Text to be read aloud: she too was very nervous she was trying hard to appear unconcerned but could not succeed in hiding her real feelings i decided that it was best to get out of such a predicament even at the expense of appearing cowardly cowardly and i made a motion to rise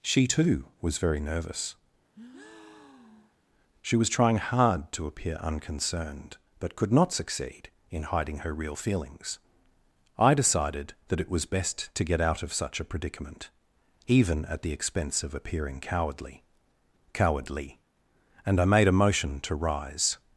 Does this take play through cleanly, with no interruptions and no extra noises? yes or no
no